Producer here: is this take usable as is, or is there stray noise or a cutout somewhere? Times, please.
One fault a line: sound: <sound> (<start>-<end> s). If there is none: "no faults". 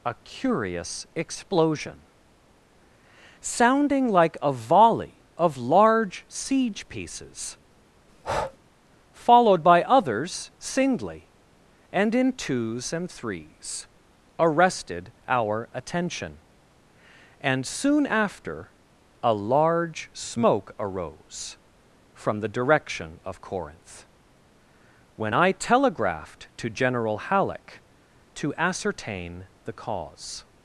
sound: breath (8.1-8.6 s)